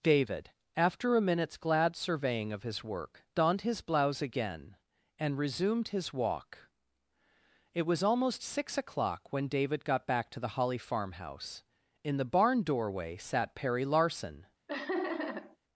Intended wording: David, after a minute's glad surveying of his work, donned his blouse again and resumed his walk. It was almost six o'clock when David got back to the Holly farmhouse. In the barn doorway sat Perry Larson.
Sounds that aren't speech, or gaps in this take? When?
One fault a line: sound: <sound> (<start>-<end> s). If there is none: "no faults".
sound: laugh (14.7-15.6 s)